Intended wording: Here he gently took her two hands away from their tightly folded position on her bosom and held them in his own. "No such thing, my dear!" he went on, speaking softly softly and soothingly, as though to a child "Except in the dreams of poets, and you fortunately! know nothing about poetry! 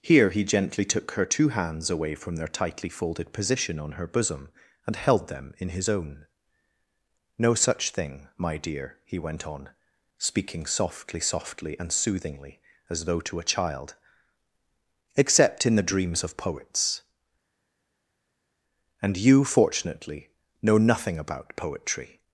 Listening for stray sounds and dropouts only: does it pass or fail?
pass